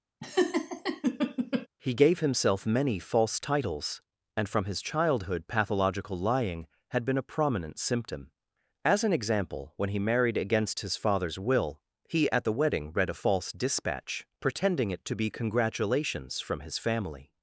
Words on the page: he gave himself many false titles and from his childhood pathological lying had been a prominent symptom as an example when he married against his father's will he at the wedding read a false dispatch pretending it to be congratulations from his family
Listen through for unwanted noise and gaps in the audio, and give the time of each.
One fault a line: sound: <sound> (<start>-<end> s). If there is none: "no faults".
sound: laugh (0.2-1.7 s)